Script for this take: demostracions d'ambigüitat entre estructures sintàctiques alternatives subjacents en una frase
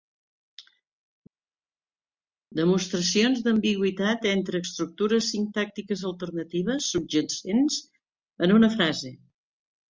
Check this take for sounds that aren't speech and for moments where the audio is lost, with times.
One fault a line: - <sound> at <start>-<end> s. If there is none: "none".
none